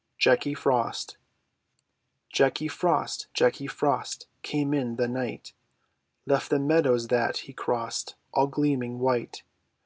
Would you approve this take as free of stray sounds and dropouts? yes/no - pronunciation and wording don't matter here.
yes